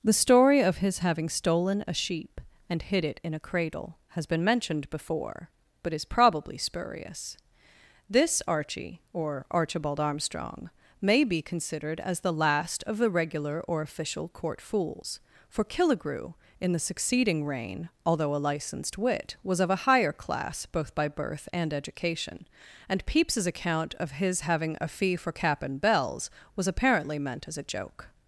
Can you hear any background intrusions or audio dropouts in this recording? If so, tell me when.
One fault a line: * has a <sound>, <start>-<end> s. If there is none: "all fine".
all fine